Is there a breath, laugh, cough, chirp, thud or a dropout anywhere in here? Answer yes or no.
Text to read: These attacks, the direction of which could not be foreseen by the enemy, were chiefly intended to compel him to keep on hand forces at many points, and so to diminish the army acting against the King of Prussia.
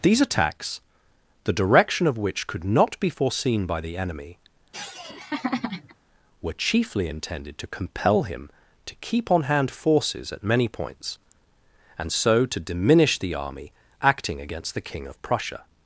yes